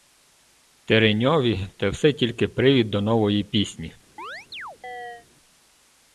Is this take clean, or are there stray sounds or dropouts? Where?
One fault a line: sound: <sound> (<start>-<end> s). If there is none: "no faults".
sound: chirp (4.2-5.3 s)